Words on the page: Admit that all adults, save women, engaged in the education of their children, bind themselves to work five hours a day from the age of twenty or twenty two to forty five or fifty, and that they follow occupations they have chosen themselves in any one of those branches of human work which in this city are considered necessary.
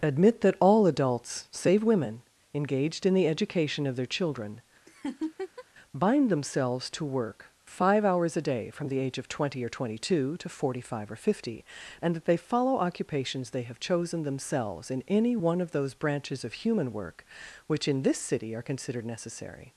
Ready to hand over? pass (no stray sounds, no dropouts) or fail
fail